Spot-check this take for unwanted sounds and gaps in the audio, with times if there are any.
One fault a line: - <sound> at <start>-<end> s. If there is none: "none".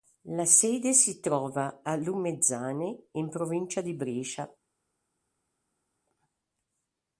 none